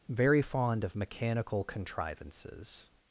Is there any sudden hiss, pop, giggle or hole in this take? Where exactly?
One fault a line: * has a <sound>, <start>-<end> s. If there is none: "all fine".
all fine